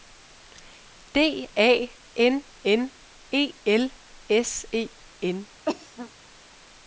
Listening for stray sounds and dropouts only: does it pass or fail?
fail